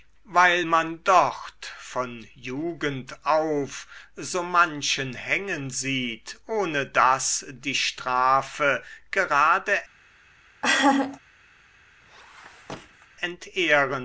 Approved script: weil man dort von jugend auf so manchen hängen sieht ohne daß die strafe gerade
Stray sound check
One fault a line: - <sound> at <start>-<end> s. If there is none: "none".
- laugh at 10.6-11.2 s
- squeak at 12.0-13.1 s